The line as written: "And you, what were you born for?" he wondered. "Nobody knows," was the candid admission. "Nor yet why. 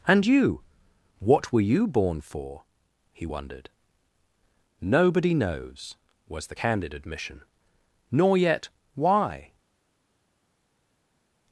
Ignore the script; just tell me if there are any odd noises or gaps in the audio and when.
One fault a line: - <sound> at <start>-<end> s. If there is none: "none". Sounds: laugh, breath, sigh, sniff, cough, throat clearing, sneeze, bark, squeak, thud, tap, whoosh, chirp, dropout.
none